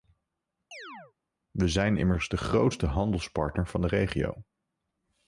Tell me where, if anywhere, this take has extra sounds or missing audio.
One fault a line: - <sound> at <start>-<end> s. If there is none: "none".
- chirp at 0.7-1.1 s